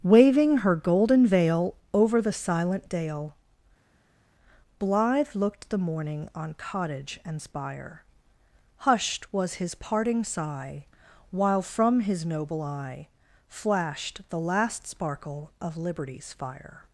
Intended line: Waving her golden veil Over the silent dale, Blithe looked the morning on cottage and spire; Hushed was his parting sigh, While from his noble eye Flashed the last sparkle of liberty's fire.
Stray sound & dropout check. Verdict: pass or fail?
pass